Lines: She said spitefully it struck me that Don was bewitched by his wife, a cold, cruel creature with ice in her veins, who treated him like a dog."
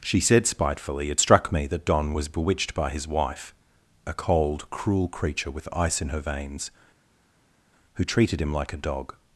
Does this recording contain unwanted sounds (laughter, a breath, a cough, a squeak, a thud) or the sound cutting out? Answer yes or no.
no